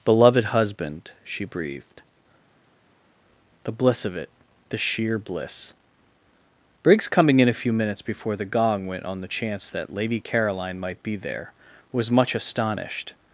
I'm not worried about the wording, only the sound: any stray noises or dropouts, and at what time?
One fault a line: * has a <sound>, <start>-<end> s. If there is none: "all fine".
all fine